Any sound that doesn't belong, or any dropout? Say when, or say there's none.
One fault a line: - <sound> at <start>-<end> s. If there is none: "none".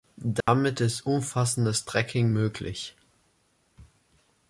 - dropout at 0.4-0.5 s